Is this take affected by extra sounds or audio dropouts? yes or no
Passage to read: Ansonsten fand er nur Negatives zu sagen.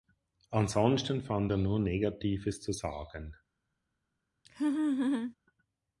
yes